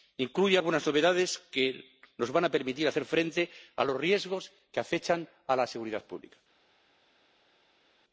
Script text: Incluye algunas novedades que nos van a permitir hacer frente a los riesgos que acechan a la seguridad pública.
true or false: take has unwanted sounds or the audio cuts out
false